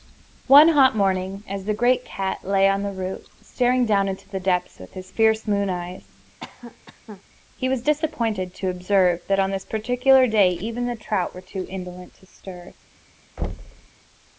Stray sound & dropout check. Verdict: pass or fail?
fail